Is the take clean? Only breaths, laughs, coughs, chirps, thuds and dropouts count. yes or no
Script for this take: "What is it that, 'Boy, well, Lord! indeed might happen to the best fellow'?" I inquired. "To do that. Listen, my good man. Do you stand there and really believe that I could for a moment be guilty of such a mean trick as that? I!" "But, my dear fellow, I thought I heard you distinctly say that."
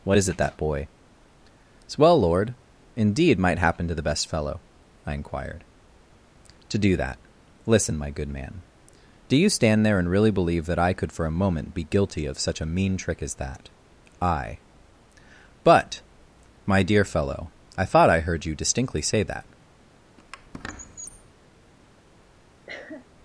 no